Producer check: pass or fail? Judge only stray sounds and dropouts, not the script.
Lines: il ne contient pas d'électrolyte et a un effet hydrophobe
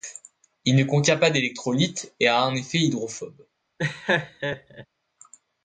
fail